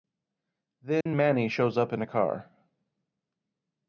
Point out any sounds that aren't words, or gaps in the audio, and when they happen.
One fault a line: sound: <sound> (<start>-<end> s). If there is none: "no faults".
sound: dropout (1.0-1.1 s)